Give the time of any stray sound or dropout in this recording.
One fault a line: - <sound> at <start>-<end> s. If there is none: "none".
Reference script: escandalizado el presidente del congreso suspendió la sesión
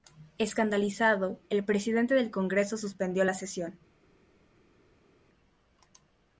none